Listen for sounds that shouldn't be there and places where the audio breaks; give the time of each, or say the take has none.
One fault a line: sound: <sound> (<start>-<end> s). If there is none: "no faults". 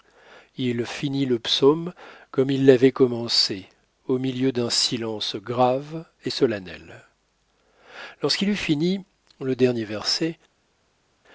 no faults